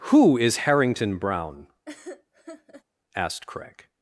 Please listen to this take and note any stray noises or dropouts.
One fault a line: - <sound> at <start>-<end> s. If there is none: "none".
- laugh at 1.9-2.8 s